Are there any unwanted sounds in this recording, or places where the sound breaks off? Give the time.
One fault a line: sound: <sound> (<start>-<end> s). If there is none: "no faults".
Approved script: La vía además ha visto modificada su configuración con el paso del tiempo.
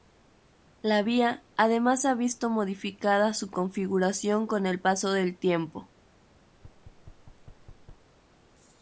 sound: thud (6.5-8.1 s)